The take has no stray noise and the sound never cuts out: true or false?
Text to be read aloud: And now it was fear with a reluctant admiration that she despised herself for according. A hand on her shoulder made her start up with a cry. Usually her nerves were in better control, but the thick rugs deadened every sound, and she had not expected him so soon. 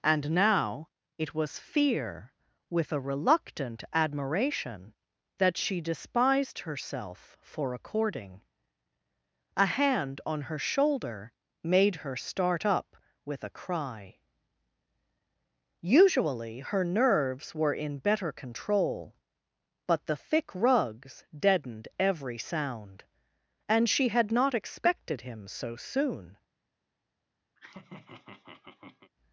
false